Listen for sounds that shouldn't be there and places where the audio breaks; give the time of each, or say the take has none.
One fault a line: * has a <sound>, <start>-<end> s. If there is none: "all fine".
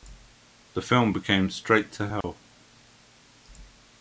* has a dropout, 2.2-2.2 s